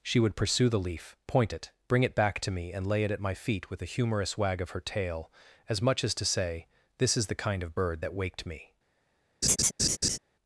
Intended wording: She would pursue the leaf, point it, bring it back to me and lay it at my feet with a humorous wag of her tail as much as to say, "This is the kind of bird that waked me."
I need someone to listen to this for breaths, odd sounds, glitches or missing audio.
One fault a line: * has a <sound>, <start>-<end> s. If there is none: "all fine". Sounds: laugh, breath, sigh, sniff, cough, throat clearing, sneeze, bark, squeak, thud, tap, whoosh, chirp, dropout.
* has a laugh, 9.4-10.2 s